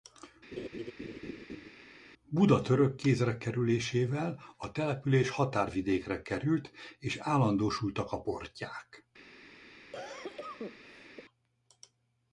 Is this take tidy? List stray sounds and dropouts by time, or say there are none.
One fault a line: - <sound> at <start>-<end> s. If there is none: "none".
- laugh at 0.5-1.7 s
- cough at 9.9-11.3 s